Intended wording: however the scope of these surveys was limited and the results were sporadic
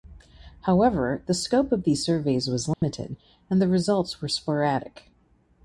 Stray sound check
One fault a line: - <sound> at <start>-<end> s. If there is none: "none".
- dropout at 2.7-2.8 s